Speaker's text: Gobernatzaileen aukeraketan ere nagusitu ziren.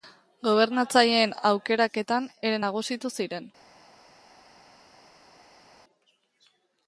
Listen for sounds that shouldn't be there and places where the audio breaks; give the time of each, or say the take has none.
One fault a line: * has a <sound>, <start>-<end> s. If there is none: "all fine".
all fine